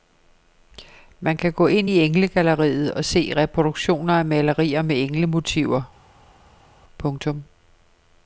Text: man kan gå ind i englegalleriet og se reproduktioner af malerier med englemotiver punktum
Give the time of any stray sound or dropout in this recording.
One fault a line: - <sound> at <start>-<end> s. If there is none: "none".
none